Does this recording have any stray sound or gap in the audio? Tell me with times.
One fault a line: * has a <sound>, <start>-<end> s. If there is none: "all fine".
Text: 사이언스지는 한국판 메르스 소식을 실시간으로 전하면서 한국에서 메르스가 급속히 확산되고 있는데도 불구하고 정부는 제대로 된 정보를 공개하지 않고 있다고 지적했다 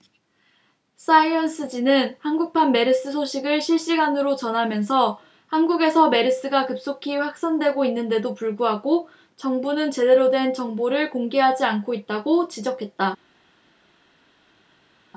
all fine